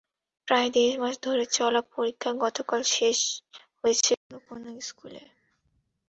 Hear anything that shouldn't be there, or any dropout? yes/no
no